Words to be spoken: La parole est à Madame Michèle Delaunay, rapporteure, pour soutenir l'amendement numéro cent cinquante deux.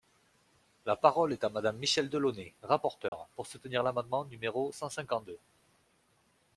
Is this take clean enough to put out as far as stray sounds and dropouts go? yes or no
no